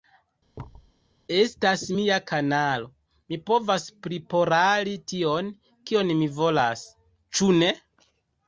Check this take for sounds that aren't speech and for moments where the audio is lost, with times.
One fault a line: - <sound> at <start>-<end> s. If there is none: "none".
- thud at 0.5-0.9 s